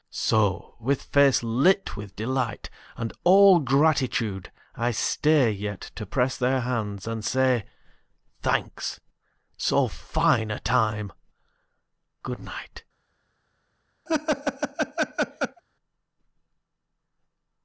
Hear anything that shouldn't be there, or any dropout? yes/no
yes